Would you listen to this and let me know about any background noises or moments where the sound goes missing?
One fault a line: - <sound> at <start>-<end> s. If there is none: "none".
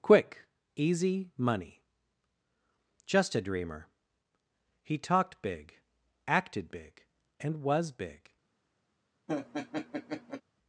- laugh at 9.3-10.4 s